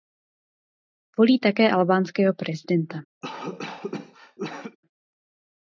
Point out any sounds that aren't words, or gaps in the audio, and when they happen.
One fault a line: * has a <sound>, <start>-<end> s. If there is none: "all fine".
* has a cough, 3.2-4.8 s